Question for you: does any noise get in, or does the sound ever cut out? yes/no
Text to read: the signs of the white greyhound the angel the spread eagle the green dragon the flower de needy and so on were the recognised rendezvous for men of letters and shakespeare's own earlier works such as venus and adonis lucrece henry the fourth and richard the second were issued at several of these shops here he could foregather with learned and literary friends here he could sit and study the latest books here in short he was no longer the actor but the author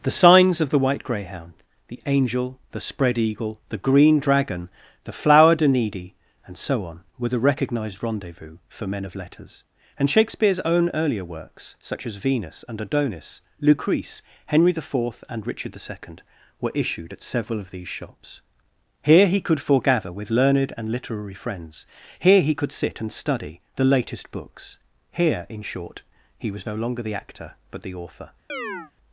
yes